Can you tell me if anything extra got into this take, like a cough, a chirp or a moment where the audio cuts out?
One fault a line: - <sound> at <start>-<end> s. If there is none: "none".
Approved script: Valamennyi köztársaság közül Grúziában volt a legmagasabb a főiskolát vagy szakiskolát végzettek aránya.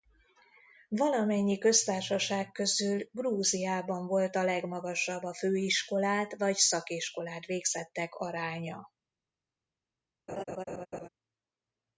- laugh at 10.3-11.1 s